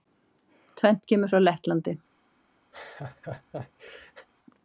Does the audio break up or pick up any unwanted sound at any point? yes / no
yes